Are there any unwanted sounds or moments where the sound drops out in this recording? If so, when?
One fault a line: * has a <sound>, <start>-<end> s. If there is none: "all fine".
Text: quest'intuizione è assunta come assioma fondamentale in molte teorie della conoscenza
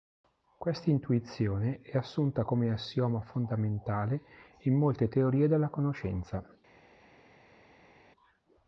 all fine